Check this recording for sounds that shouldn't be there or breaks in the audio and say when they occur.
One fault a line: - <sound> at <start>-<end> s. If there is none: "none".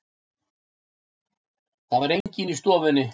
- dropout at 2.2-2.3 s